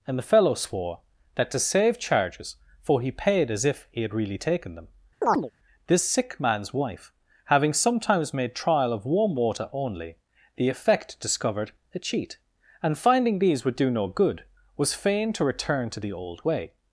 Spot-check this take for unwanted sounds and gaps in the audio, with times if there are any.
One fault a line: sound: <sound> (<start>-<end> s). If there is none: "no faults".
sound: chirp (5.2-5.5 s)